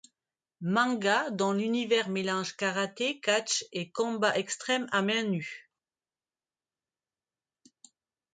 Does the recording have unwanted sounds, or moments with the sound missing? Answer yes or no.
no